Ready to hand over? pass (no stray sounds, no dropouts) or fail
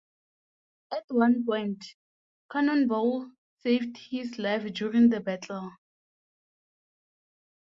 pass